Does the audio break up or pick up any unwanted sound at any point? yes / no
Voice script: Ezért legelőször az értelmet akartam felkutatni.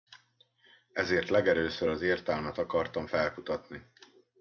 no